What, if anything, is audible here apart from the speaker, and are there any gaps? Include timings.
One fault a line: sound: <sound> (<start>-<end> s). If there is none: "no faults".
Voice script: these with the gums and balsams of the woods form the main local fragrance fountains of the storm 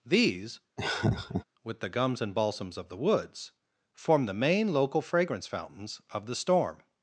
sound: laugh (0.8-1.4 s)